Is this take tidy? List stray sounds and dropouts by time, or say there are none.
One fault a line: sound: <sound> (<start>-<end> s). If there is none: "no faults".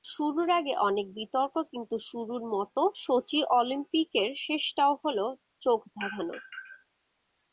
no faults